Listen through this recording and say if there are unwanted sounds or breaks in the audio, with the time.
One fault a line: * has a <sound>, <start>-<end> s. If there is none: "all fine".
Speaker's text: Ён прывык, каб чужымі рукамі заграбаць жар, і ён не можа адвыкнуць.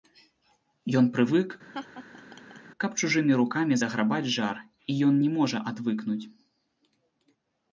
* has a laugh, 1.7-2.6 s